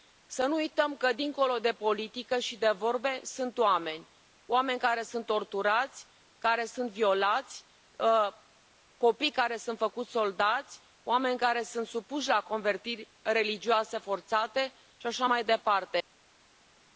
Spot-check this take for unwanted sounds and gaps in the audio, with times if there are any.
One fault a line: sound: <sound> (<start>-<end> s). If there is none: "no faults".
no faults